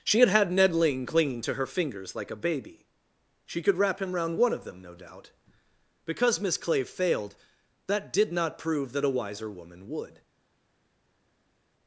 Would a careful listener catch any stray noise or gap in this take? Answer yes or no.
no